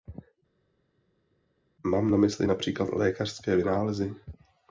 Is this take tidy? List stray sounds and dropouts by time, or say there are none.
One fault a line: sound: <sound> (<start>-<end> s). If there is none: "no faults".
no faults